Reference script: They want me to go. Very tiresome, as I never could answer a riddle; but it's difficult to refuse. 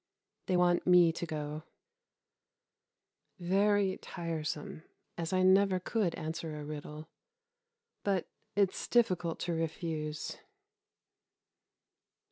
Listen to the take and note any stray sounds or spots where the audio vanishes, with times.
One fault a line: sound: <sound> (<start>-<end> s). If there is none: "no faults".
no faults